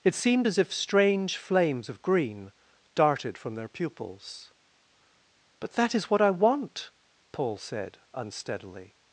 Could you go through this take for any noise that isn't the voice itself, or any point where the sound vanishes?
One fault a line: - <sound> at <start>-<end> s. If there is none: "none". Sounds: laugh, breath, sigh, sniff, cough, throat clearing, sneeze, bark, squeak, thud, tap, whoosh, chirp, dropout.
none